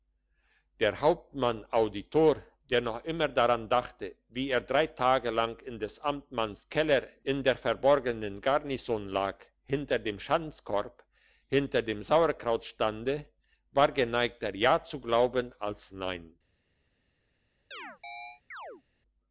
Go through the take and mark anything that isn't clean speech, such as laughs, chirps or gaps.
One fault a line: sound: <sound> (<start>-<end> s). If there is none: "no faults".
sound: chirp (17.7-18.8 s)